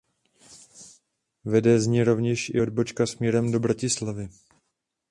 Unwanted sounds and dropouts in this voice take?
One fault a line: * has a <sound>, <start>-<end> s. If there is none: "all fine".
all fine